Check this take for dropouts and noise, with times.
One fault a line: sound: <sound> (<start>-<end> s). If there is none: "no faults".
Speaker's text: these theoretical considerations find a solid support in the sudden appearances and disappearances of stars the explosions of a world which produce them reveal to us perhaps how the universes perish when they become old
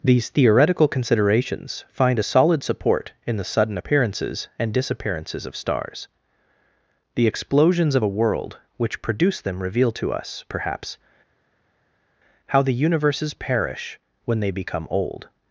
no faults